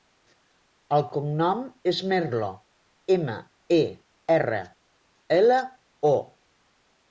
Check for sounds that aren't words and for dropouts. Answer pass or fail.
pass